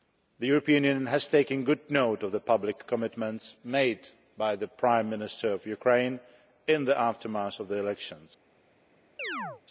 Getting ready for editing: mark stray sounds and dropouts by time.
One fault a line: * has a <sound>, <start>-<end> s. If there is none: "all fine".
* has a chirp, 9.2-9.6 s